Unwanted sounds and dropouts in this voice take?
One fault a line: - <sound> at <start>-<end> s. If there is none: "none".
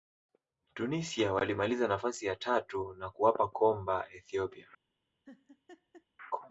- laugh at 5.3-6.1 s